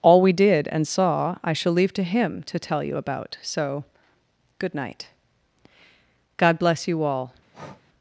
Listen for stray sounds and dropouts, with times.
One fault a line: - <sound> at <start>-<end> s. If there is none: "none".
- breath at 7.5-7.8 s